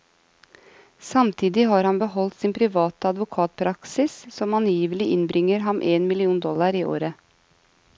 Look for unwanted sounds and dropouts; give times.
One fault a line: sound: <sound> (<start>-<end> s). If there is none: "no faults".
no faults